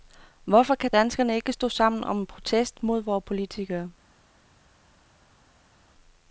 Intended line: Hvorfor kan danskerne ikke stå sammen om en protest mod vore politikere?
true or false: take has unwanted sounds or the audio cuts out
false